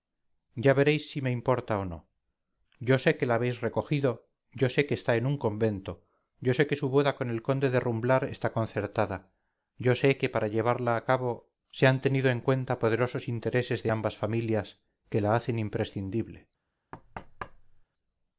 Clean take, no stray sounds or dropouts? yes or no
no